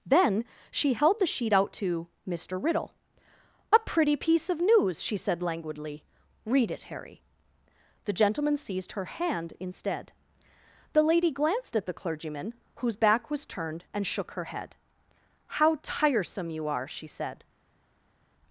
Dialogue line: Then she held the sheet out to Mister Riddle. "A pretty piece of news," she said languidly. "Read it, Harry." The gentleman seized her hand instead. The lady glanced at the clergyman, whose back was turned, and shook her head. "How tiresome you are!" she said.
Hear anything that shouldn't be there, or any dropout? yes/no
no